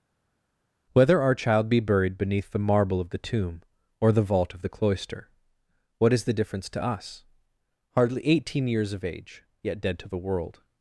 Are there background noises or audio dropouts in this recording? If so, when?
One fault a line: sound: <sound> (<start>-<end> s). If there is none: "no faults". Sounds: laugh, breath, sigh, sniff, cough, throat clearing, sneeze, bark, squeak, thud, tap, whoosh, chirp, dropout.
no faults